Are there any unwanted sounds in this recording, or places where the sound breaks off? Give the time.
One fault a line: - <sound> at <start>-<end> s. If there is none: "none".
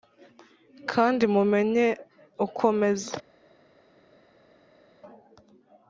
none